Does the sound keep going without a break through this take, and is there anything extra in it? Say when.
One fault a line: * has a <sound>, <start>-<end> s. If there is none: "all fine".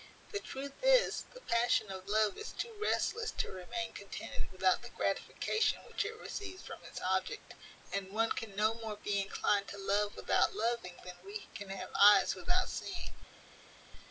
all fine